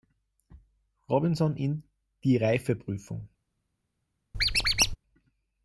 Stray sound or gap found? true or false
true